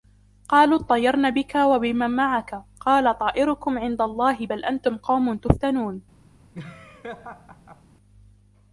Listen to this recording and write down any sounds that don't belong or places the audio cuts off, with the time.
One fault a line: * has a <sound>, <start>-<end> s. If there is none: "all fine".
* has a laugh, 6.5-7.8 s